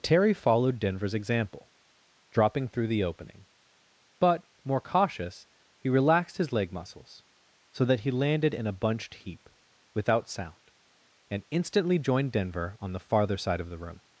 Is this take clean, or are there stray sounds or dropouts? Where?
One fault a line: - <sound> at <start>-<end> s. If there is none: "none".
none